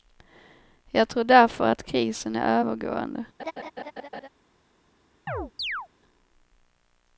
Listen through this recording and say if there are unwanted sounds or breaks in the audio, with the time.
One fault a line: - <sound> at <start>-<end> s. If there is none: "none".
- laugh at 3.4-4.3 s
- chirp at 5.3-5.9 s